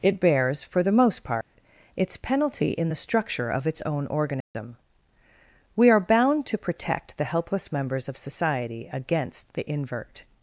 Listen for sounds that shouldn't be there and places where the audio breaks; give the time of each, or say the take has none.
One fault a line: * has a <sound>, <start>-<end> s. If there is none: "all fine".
* has a dropout, 1.4-1.5 s
* has a dropout, 4.4-4.5 s